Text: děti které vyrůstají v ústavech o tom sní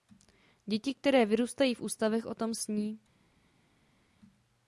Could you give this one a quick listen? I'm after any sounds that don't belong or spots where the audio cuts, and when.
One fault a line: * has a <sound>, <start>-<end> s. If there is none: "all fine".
all fine